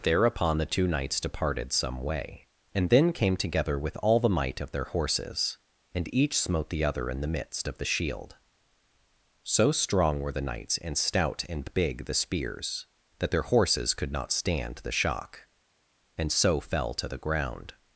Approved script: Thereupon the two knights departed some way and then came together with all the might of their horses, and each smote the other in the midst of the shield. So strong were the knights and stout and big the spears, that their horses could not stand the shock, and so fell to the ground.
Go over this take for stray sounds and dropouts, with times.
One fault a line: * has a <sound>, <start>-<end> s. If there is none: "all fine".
all fine